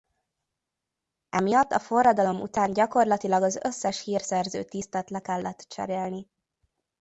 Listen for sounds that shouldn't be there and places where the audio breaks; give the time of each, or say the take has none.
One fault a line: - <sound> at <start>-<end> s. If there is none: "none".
none